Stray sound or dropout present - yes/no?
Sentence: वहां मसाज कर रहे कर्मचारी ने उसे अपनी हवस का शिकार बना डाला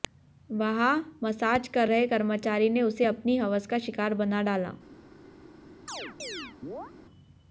yes